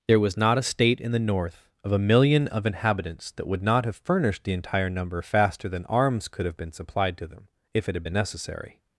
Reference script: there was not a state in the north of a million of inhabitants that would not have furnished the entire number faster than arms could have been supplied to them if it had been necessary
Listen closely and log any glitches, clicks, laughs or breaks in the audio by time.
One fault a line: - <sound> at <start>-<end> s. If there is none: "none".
none